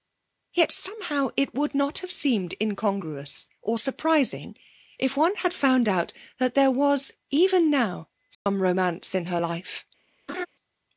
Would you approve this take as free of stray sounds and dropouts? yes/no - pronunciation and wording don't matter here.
no